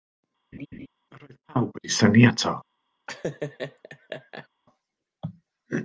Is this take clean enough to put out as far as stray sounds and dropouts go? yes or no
no